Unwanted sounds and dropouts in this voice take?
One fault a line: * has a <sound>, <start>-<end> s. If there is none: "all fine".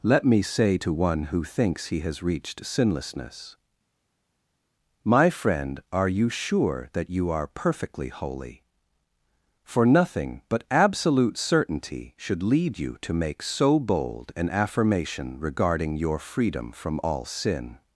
all fine